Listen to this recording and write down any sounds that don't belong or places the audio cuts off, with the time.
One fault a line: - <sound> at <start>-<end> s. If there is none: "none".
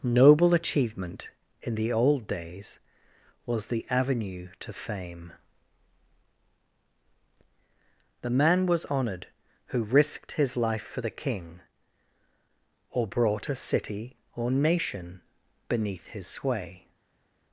none